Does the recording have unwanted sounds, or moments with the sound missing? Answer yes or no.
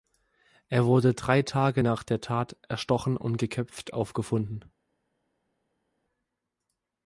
no